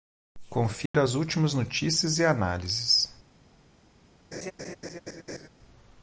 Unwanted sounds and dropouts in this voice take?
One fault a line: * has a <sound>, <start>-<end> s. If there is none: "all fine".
* has a dropout, 0.9-0.9 s
* has a laugh, 4.3-5.5 s